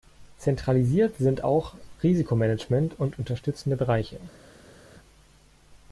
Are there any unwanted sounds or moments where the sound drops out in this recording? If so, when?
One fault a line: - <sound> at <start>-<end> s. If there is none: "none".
none